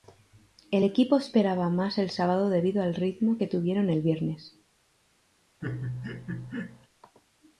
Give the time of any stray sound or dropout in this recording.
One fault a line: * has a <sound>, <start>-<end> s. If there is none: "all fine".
* has a laugh, 5.6-6.9 s